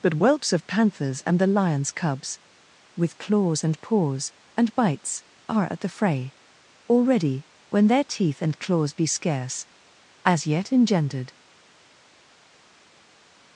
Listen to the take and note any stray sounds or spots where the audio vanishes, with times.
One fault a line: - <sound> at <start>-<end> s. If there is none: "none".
none